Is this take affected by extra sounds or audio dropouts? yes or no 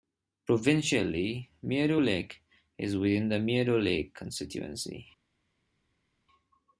no